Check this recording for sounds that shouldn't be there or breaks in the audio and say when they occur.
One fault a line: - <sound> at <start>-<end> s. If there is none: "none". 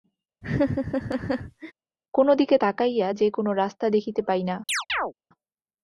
- laugh at 0.4-1.7 s
- chirp at 4.7-5.1 s